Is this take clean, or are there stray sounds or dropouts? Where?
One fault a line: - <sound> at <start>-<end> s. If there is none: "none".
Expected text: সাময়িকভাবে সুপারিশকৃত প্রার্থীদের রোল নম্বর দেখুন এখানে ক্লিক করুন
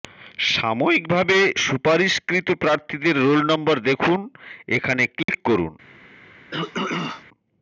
- dropout at 5.2-5.3 s
- throat clearing at 6.5-7.2 s